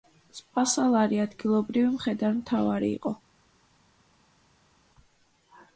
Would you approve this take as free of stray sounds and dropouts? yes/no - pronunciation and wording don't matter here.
yes